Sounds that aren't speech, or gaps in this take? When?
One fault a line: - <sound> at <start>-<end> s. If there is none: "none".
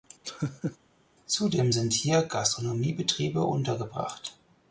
- laugh at 0.2-0.8 s